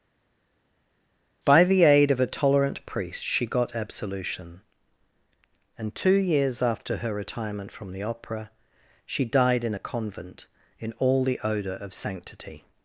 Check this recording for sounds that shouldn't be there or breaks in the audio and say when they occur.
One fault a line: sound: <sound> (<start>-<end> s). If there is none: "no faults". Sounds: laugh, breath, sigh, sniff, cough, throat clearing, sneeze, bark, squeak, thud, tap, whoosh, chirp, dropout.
no faults